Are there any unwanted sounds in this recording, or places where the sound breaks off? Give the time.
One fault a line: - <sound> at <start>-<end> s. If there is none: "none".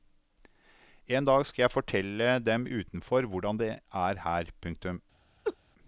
- laugh at 5.4-5.6 s